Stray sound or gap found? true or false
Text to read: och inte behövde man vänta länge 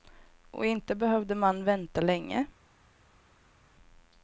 false